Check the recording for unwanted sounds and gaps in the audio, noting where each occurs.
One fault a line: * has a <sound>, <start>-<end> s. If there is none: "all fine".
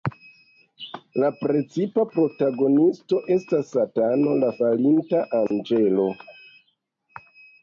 * has a dropout, 5.5-5.5 s